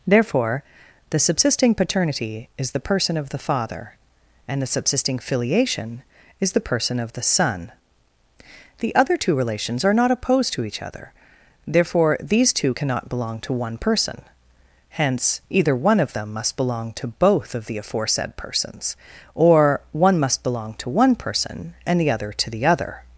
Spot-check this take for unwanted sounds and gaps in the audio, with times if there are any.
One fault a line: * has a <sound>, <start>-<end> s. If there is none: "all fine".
all fine